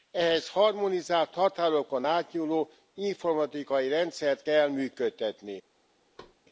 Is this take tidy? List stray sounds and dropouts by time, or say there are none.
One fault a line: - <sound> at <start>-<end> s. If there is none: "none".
- thud at 6.2-6.4 s